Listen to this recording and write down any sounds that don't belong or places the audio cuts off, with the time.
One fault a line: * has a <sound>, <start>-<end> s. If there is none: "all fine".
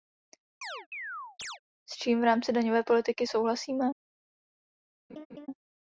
* has a chirp, 0.6-1.6 s
* has a laugh, 5.1-5.5 s